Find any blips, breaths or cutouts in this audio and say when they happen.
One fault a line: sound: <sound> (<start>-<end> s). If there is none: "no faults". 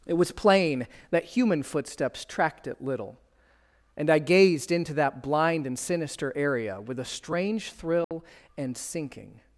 sound: dropout (8.0-8.1 s)